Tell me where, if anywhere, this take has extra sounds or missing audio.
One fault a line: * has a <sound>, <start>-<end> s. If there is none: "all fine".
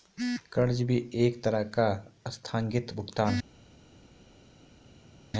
all fine